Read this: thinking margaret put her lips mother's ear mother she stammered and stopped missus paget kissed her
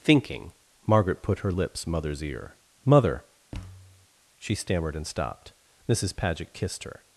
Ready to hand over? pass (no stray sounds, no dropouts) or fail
fail